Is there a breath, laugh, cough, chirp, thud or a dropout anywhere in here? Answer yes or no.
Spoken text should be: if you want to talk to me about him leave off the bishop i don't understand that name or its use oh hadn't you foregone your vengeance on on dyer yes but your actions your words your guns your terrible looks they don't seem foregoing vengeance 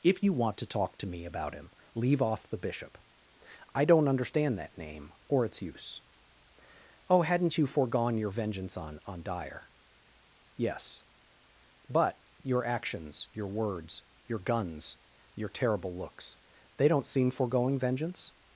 no